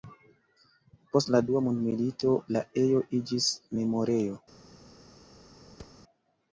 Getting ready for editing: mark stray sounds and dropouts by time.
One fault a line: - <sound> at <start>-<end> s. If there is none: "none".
- thud at 5.8-6.0 s